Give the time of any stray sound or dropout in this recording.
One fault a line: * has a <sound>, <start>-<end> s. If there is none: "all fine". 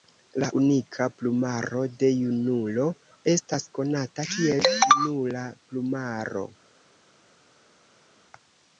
all fine